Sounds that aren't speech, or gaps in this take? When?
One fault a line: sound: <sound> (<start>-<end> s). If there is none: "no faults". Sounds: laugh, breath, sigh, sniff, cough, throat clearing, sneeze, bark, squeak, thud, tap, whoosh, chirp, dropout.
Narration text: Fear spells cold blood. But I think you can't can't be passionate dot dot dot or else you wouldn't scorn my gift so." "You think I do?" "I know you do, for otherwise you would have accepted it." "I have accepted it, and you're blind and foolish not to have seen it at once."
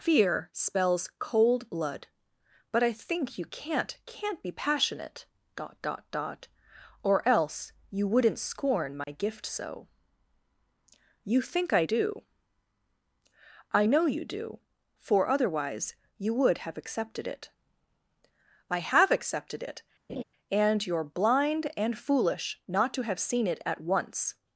sound: dropout (9.0-9.1 s)
sound: laugh (20.1-20.2 s)